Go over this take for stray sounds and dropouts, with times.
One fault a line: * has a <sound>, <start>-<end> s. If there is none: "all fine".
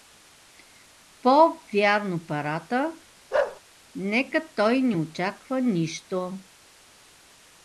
* has a bark, 3.3-3.6 s